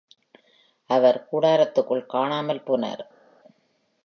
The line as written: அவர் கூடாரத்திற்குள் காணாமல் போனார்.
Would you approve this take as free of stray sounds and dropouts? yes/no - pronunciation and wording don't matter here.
yes